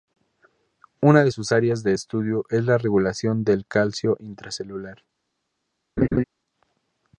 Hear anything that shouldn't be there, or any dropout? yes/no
yes